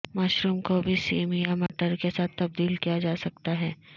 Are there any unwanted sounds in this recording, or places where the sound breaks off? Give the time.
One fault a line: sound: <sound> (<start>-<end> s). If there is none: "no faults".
sound: dropout (1.7-1.7 s)